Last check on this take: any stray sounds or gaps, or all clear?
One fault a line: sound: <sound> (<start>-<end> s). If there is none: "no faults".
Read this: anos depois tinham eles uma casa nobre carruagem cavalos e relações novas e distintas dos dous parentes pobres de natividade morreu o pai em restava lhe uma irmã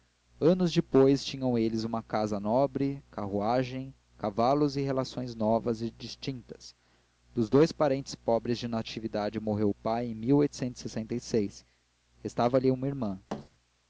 sound: thud (13.3-13.5 s)